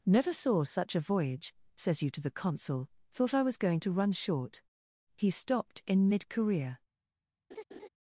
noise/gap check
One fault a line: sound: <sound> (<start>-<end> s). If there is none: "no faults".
sound: laugh (7.5-7.9 s)